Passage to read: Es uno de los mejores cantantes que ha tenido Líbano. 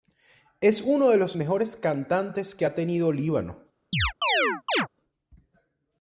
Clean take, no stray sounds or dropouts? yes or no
no